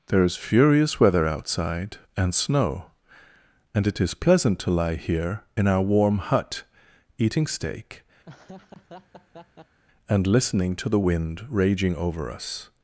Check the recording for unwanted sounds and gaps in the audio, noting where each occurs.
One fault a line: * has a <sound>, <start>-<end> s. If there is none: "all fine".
* has a laugh, 8.2-9.8 s